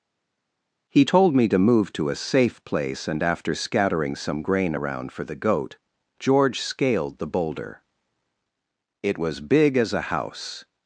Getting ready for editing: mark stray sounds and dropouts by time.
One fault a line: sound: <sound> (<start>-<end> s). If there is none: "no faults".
no faults